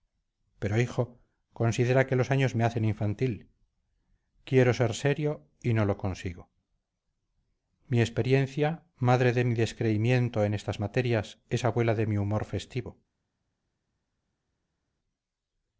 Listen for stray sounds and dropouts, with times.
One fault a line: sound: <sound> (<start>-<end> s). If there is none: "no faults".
no faults